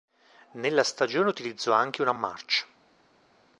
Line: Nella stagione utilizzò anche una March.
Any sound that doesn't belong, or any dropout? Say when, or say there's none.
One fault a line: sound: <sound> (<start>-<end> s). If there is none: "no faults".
no faults